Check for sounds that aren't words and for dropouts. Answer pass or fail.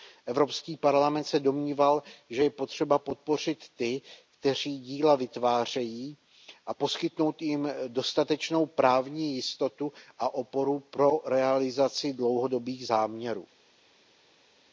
pass